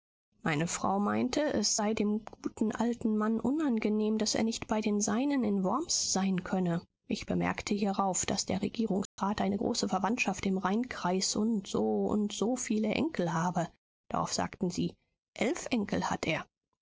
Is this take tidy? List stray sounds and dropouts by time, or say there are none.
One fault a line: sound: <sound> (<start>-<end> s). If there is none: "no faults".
sound: dropout (9.1-9.2 s)